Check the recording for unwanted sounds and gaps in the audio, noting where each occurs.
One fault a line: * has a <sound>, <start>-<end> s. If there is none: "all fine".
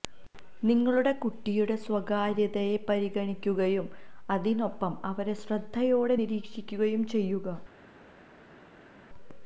all fine